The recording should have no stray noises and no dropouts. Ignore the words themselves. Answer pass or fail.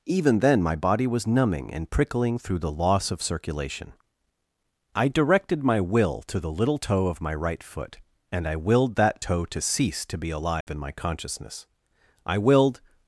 fail